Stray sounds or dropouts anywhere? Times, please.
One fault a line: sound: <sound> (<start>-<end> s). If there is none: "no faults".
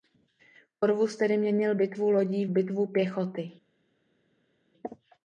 no faults